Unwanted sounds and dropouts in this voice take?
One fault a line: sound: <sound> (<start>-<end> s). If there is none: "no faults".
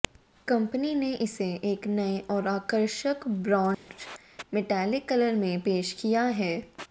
sound: dropout (3.7-3.9 s)